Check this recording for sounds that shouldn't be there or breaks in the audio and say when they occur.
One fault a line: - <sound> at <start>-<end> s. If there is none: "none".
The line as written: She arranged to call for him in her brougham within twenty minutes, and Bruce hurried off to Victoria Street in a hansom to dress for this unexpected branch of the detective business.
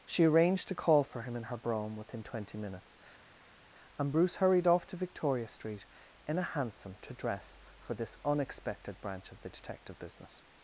none